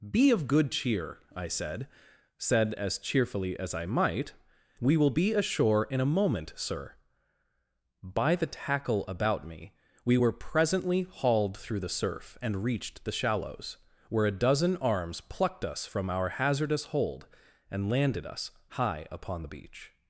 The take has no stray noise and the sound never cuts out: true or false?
true